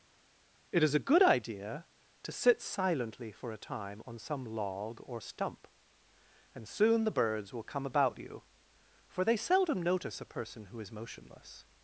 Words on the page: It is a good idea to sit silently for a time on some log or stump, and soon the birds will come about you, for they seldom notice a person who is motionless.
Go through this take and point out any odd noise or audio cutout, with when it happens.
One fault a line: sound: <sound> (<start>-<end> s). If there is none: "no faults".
no faults